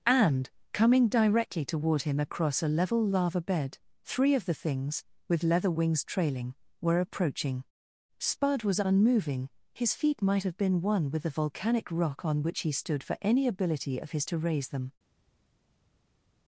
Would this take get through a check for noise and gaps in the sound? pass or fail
pass